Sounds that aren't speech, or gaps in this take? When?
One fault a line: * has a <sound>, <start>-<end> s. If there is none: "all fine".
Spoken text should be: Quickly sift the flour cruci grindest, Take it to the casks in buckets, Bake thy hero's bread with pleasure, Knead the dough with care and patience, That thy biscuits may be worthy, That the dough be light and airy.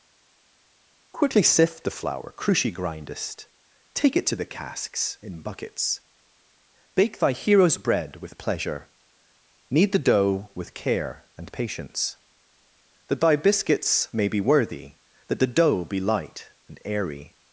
all fine